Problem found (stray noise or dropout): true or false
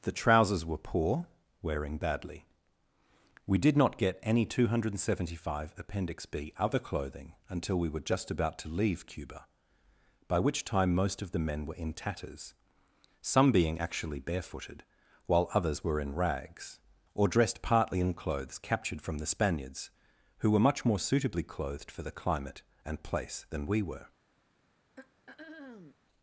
true